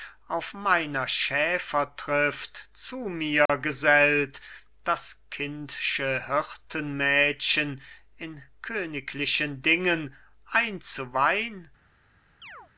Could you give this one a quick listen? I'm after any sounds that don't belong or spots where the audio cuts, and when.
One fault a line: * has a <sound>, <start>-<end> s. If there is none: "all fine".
* has a dropout, 3.5-3.5 s
* has a chirp, 12.4-12.7 s